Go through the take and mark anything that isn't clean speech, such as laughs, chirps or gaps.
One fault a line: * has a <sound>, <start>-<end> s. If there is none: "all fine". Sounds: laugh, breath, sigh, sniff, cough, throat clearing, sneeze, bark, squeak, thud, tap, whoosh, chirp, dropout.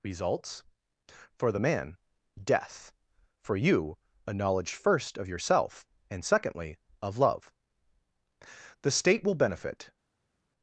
all fine